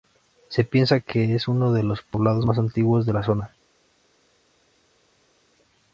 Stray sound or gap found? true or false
false